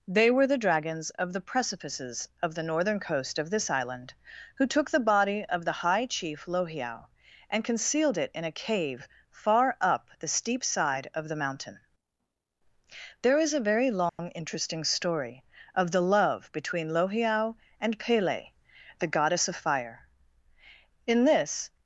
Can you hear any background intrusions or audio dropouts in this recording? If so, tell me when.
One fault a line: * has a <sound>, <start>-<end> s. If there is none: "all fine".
* has a dropout, 14.1-14.2 s